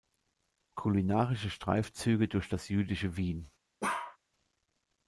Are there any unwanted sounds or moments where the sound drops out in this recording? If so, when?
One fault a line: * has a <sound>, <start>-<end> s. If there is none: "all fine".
* has a bark, 3.8-4.2 s